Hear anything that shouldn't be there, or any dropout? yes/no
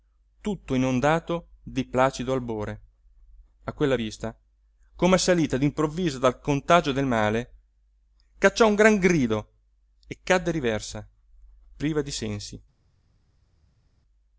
no